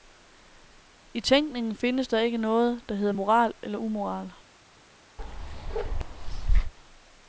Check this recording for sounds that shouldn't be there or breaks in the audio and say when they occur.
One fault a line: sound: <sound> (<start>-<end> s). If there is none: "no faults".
sound: bark (5.2-6.7 s)